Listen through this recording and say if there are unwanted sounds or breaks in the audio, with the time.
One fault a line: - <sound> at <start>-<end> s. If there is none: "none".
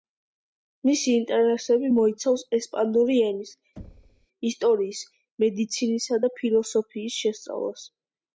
- thud at 3.8-4.3 s